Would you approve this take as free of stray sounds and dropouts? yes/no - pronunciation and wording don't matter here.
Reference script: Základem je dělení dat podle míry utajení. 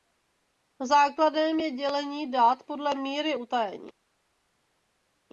yes